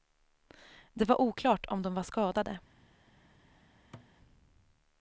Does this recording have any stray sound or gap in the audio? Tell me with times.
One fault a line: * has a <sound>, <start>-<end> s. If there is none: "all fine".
* has a thud, 3.9-4.1 s